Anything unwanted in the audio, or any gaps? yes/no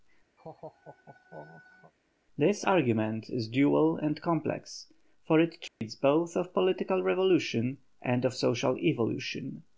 yes